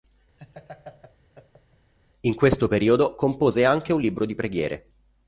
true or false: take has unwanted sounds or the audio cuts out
true